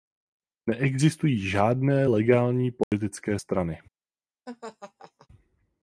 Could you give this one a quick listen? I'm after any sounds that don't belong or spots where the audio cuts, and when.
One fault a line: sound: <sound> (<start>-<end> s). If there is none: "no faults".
sound: dropout (2.8-2.9 s)
sound: laugh (4.5-5.3 s)